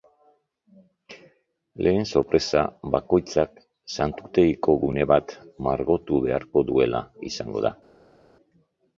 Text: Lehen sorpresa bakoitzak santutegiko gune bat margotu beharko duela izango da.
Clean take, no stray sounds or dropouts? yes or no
yes